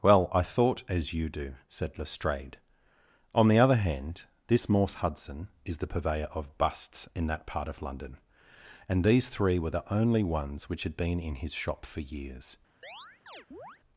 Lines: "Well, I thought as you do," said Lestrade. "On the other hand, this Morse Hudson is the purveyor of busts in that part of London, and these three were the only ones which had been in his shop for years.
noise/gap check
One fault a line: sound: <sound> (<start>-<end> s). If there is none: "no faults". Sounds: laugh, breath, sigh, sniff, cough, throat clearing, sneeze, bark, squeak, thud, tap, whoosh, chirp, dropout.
sound: chirp (12.8-13.8 s)